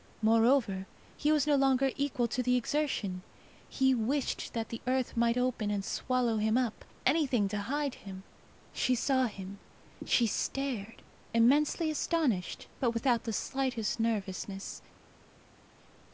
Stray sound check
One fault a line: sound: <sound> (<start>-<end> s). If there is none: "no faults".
no faults